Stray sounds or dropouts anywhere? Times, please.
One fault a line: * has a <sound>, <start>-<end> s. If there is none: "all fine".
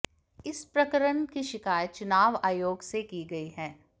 all fine